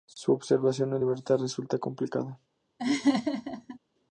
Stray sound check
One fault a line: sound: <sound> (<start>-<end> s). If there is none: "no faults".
sound: laugh (2.8-3.8 s)